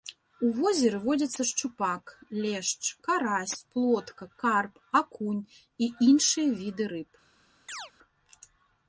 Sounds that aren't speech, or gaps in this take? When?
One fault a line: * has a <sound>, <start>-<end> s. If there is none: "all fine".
* has a chirp, 7.7-7.9 s